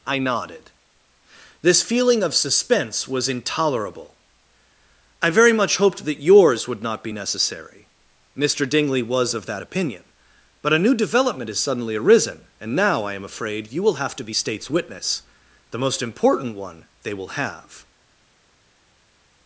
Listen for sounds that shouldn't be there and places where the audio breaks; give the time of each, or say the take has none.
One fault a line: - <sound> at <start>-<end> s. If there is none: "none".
none